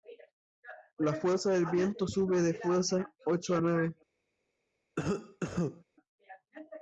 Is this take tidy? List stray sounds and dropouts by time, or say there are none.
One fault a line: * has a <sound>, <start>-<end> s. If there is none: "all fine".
* has a cough, 5.0-5.8 s